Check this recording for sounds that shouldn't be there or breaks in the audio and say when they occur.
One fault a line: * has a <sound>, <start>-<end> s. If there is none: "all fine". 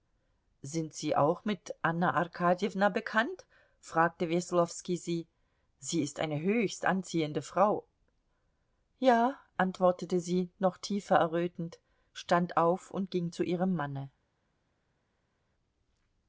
all fine